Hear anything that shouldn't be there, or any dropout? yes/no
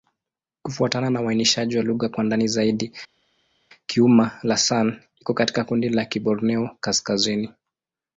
no